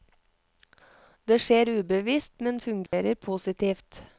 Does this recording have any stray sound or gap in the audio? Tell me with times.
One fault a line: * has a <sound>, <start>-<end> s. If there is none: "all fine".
* has a dropout, 2.9-2.9 s